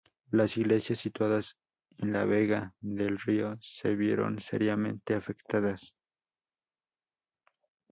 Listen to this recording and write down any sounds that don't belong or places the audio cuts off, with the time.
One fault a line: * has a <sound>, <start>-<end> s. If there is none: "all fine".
all fine